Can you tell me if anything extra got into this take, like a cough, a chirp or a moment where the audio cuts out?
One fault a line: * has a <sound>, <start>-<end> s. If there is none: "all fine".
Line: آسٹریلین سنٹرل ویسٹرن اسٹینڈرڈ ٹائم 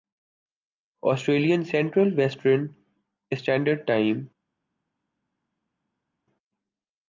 all fine